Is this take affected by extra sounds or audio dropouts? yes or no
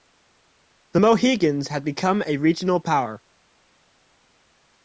no